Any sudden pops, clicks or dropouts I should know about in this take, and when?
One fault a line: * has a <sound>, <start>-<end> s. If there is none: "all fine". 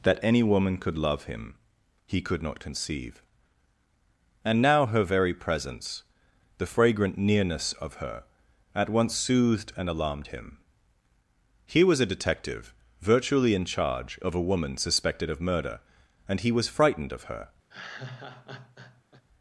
* has a laugh, 17.7-19.2 s